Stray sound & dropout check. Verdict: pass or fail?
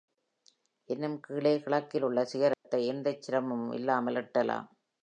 fail